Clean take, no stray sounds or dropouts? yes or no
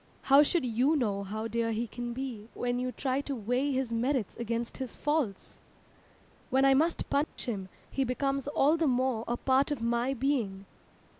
no